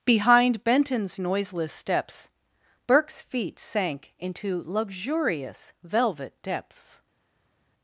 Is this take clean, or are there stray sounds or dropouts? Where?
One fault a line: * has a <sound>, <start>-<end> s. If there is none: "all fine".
all fine